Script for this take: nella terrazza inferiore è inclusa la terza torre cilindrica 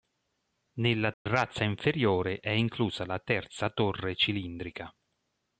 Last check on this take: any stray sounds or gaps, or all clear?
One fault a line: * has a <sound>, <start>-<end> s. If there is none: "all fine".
* has a dropout, 1.1-1.3 s